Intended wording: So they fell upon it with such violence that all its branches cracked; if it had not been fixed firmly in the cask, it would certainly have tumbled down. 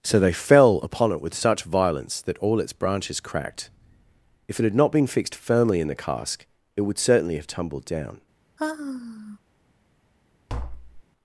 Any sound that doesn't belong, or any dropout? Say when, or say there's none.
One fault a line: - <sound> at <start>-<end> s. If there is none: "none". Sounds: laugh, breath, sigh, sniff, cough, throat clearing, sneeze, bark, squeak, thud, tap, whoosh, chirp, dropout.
- sigh at 8.6-9.4 s
- tap at 10.5-11.0 s